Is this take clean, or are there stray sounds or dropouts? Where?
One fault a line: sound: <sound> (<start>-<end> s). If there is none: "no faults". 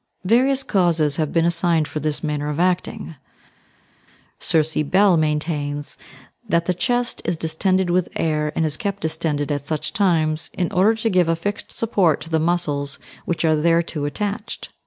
no faults